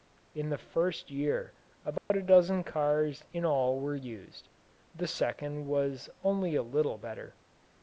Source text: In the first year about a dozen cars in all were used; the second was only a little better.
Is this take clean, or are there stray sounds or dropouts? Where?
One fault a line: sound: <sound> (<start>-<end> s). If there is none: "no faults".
sound: dropout (2.0-2.1 s)